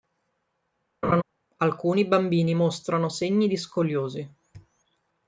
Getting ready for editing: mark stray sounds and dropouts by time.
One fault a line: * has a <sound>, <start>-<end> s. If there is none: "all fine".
* has a laugh, 1.0-1.2 s